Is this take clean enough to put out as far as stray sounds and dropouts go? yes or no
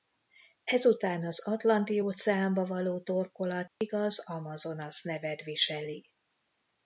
no